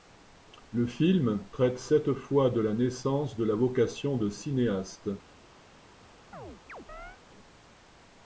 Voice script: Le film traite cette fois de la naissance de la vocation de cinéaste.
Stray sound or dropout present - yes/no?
yes